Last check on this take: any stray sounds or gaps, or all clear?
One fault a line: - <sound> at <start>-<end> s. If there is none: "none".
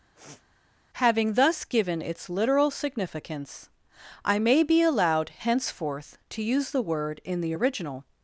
- sniff at 0.2-0.4 s